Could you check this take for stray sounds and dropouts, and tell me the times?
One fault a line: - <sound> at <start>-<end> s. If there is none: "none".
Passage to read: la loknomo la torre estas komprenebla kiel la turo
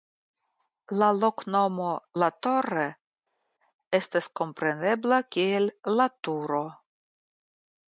none